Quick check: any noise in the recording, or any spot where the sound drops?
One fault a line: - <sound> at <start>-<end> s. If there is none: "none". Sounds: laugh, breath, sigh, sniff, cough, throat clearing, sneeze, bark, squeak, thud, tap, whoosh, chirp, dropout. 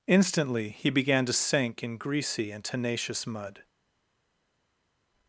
none